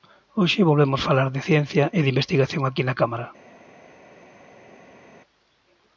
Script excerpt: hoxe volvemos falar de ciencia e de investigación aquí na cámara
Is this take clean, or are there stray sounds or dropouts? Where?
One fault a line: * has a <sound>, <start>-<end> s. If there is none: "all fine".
all fine